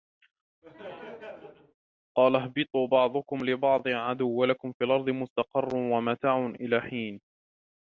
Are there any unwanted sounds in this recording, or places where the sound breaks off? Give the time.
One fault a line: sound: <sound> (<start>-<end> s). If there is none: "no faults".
sound: laugh (0.6-1.7 s)